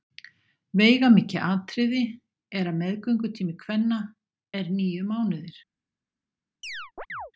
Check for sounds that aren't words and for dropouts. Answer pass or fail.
fail